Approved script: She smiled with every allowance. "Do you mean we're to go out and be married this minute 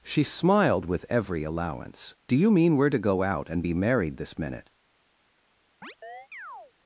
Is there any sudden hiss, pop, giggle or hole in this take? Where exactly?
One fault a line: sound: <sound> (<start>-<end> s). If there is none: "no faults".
sound: chirp (5.8-6.7 s)